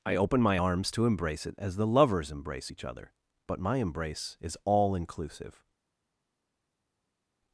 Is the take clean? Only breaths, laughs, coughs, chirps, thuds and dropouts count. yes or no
yes